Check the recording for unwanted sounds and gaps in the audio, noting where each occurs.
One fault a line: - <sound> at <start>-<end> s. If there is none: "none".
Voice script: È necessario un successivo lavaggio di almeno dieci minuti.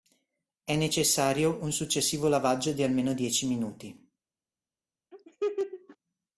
- laugh at 5.1-6.0 s